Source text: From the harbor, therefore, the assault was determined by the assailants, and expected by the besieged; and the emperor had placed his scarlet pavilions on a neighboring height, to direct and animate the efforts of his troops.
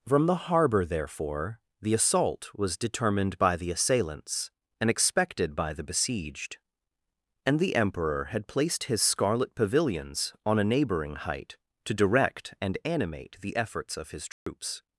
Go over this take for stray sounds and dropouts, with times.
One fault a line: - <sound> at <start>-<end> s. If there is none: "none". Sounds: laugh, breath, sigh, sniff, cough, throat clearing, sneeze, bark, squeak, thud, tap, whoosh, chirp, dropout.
- dropout at 14.3-14.5 s